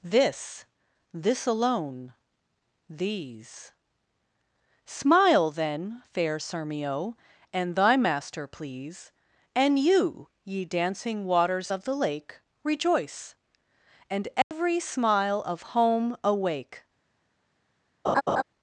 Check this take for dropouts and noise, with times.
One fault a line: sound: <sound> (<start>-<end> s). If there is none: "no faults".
sound: dropout (14.4-14.5 s)
sound: laugh (18.0-18.4 s)